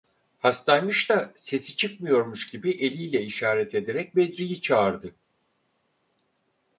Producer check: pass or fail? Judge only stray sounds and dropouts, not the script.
pass